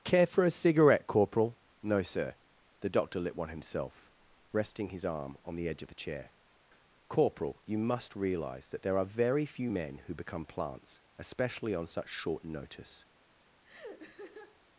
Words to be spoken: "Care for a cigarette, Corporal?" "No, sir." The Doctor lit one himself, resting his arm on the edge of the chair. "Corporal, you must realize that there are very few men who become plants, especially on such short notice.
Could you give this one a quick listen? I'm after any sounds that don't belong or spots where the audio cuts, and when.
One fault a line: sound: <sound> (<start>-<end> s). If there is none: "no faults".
sound: laugh (13.6-14.6 s)